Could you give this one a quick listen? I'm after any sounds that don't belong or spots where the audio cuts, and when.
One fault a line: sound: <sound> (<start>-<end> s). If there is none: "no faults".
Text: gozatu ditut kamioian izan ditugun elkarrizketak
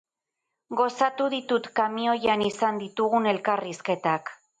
no faults